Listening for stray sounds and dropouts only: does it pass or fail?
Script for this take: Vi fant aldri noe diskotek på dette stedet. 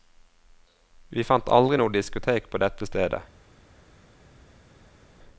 pass